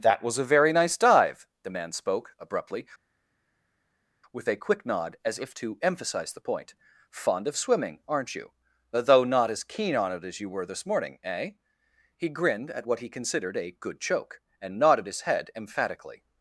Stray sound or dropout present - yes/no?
no